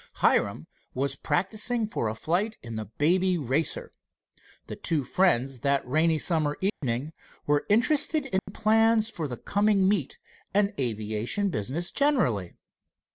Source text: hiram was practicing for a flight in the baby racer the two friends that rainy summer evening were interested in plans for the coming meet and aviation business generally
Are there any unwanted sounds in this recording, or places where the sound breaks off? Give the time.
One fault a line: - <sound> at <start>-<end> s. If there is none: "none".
- dropout at 6.7-6.8 s
- dropout at 8.4-8.5 s